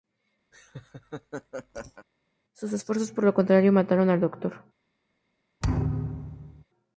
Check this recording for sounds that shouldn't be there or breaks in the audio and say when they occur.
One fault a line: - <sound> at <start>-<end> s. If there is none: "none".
- laugh at 0.5-2.1 s
- thud at 5.6-6.6 s